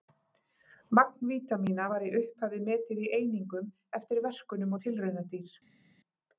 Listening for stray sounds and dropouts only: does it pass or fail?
pass